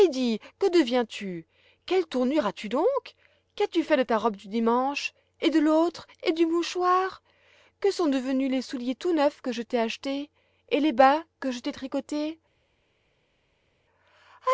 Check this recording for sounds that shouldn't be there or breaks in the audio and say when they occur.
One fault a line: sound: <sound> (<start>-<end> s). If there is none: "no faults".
no faults